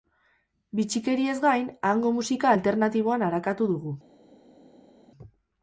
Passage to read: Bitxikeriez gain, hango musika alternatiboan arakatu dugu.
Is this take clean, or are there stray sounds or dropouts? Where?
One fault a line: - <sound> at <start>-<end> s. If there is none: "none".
none